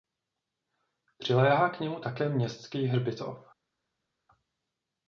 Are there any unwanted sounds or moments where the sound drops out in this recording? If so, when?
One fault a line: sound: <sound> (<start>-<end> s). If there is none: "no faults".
no faults